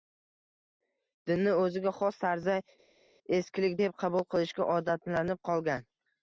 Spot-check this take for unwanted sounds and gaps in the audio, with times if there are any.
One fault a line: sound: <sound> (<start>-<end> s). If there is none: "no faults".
no faults